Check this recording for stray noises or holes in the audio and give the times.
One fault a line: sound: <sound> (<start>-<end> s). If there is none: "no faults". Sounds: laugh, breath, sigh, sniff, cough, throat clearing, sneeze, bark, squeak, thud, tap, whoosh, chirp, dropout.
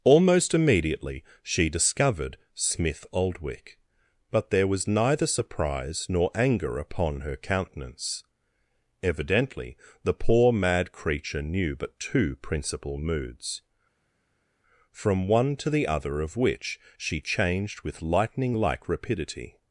no faults